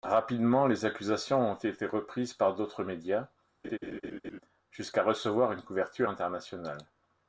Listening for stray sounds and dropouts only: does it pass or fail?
fail